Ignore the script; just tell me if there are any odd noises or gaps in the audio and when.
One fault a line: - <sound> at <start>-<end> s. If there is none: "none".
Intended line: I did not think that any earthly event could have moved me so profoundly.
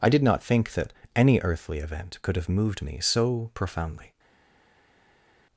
none